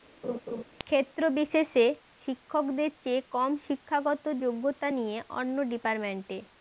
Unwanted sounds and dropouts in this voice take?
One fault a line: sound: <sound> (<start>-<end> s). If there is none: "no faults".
sound: laugh (0.2-0.6 s)